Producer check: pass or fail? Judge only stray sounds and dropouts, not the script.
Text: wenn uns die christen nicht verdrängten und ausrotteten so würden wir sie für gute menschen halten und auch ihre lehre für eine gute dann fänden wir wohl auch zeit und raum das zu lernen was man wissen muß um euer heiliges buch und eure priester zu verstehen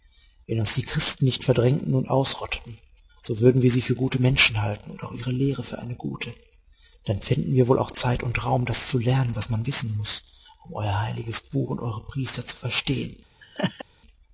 fail